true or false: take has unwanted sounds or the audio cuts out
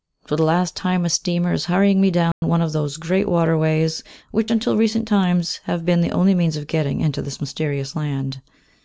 true